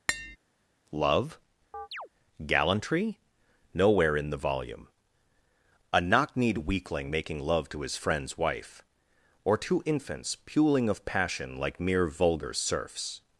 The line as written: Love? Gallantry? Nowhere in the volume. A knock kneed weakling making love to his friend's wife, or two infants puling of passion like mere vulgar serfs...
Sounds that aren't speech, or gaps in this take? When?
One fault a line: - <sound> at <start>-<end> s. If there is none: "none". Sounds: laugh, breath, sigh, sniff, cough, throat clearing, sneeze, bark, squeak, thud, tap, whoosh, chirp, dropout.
- tap at 0.1-0.4 s
- chirp at 1.7-2.1 s